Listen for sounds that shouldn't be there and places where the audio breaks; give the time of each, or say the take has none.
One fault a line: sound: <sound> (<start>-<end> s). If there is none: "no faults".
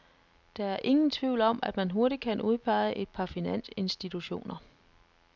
no faults